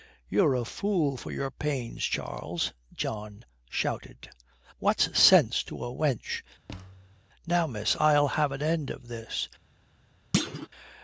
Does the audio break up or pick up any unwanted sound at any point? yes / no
yes